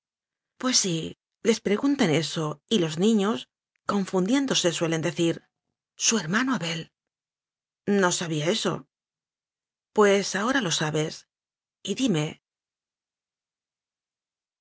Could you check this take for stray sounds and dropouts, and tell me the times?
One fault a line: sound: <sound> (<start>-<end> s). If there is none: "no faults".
no faults